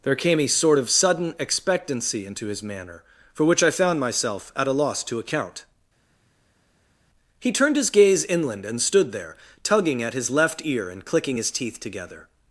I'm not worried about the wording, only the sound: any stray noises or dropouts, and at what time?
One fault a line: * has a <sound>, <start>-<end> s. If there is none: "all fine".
all fine